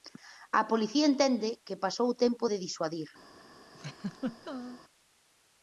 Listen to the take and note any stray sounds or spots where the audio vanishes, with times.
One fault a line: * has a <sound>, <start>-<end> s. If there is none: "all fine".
* has a laugh, 3.7-4.8 s